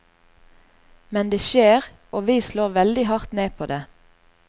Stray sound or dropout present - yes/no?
no